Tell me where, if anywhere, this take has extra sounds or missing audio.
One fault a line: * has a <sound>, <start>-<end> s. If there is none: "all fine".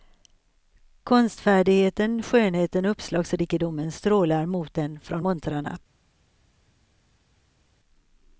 all fine